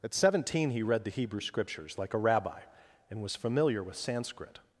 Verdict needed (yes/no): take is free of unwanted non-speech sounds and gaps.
yes